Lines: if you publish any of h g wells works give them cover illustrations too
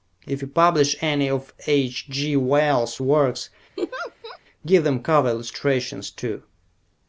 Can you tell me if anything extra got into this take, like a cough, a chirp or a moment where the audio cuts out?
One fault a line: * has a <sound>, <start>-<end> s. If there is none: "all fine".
* has a laugh, 3.8-4.4 s